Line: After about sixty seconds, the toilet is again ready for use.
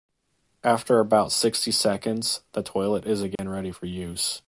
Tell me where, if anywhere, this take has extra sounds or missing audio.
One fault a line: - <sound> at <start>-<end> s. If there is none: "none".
- dropout at 3.4-3.4 s